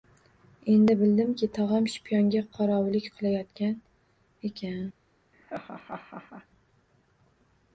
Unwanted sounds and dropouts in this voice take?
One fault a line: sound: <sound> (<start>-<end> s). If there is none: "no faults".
sound: laugh (5.3-6.5 s)